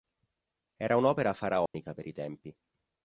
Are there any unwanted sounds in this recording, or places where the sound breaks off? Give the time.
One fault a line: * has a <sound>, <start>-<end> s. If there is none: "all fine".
* has a dropout, 1.7-1.7 s